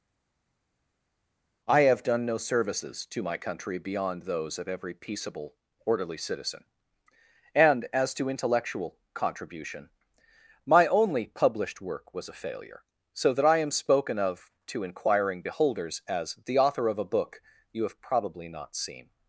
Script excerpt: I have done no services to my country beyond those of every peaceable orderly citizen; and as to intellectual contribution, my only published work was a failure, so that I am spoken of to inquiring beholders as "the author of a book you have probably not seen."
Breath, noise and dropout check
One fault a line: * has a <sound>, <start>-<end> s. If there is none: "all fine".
all fine